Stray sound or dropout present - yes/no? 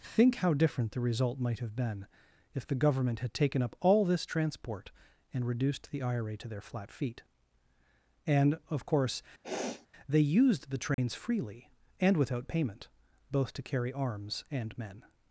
yes